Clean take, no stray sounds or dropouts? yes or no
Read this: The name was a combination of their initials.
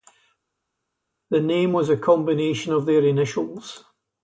yes